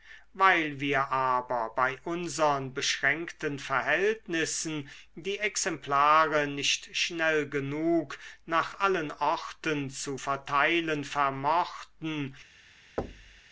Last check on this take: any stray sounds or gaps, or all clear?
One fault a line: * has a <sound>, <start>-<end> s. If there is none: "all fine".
* has a thud, 13.0-13.4 s